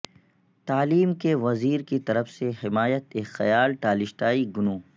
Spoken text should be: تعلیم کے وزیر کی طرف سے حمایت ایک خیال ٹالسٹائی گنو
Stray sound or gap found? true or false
false